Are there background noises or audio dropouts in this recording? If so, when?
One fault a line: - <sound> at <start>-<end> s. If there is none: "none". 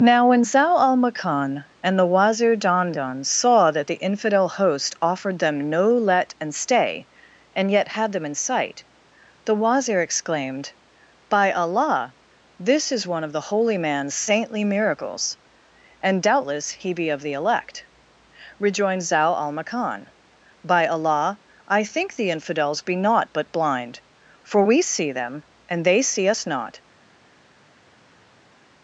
none